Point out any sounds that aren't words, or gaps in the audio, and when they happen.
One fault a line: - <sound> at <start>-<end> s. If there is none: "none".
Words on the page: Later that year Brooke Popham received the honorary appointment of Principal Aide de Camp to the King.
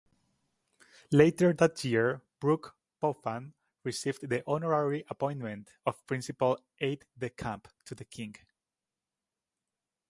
none